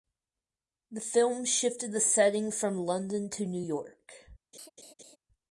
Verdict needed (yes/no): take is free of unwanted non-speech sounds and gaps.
no